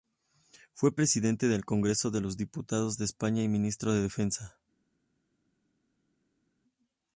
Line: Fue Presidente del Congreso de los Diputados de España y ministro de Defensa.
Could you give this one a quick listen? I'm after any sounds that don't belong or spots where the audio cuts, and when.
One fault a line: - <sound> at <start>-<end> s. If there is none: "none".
none